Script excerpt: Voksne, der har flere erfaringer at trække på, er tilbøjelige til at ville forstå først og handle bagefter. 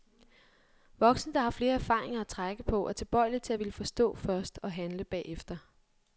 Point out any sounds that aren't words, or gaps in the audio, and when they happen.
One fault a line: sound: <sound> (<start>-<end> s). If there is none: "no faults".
no faults